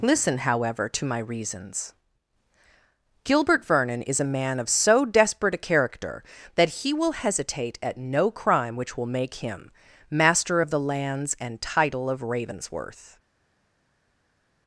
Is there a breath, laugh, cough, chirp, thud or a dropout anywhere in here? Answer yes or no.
no